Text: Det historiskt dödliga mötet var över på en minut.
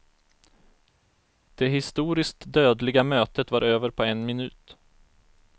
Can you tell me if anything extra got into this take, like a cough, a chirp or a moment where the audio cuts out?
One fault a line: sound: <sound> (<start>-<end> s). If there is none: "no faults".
no faults